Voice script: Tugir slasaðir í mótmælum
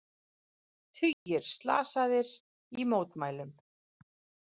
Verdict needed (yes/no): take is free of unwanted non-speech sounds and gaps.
no